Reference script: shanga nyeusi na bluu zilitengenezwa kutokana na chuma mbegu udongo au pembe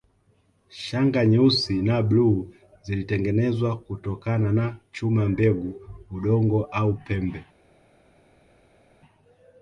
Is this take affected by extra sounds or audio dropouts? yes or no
no